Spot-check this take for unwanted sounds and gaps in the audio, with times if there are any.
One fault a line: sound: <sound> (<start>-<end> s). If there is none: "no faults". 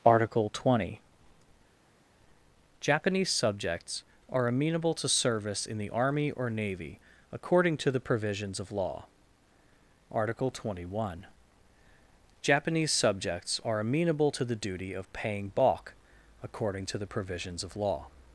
no faults